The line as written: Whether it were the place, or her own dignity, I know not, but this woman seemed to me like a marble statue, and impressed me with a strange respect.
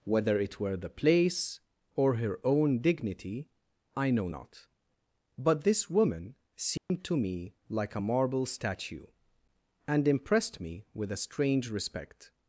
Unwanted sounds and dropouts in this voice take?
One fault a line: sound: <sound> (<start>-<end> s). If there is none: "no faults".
sound: dropout (6.8-6.9 s)